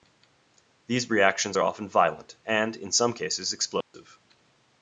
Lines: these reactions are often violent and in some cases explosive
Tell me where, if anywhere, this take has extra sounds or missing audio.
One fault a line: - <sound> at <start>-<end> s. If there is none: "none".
- dropout at 3.8-3.9 s